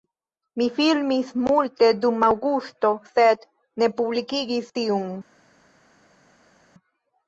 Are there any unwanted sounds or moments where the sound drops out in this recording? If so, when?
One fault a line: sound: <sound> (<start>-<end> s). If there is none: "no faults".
no faults